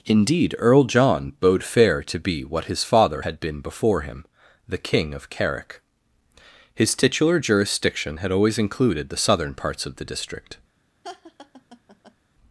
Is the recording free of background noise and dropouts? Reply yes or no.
no